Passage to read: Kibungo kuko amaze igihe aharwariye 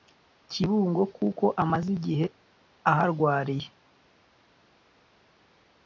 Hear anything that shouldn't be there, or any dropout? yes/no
no